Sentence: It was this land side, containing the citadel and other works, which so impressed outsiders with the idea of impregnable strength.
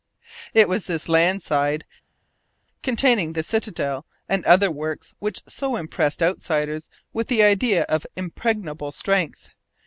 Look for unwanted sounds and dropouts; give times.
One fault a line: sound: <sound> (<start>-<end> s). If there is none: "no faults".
no faults